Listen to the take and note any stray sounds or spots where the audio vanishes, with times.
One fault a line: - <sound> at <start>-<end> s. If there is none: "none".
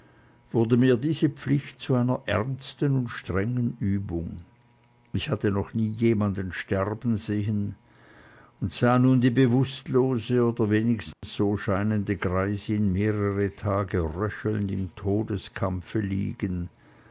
- dropout at 11.1-11.2 s